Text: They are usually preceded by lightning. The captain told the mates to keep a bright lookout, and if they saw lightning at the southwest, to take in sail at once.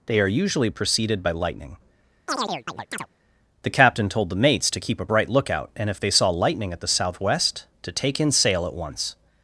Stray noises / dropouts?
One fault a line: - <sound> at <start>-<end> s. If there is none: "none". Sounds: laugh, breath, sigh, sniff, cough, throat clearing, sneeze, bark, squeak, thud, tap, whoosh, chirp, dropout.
- chirp at 2.3-3.1 s